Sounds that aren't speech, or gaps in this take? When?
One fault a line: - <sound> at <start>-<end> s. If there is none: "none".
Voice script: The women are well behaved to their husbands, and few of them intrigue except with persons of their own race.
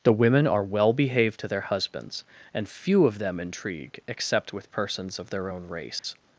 - dropout at 6.0-6.0 s